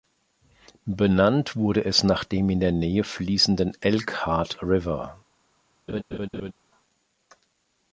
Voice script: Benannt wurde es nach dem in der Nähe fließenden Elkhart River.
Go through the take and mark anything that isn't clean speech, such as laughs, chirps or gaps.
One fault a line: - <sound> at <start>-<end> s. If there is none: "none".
- laugh at 5.9-6.5 s